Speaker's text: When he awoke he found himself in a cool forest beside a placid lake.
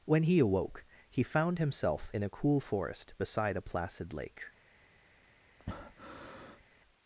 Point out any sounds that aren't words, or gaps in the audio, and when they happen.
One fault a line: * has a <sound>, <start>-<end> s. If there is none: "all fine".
* has a breath, 5.6-6.6 s